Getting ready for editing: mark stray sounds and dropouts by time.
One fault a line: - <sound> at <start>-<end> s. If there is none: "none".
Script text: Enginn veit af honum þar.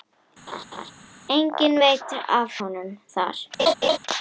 - laugh at 0.5-0.9 s
- laugh at 3.6-4.0 s